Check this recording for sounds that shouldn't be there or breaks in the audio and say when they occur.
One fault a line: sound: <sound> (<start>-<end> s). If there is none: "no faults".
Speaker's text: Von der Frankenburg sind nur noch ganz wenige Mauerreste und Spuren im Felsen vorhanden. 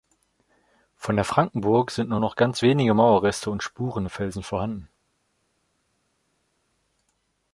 no faults